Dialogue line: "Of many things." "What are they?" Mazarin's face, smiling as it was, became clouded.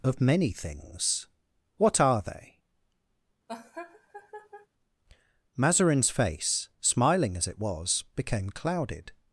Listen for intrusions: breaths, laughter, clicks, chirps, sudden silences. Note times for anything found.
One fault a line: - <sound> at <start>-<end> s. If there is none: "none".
- laugh at 3.5-4.7 s